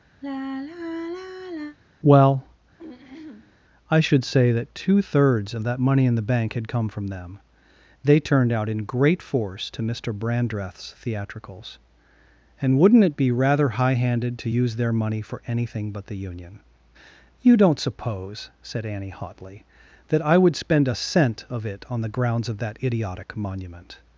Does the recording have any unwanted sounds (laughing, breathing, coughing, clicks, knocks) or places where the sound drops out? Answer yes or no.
yes